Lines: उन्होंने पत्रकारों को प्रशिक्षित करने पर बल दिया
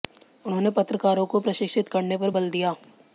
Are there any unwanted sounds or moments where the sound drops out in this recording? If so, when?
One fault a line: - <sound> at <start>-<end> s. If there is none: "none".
none